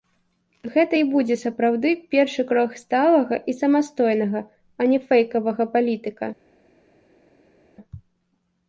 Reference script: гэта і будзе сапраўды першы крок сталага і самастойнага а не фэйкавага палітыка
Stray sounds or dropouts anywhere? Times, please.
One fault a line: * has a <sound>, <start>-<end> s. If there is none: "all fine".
all fine